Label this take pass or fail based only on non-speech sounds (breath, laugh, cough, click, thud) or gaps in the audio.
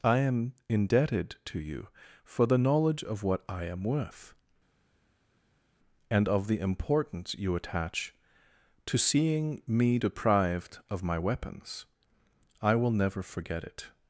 pass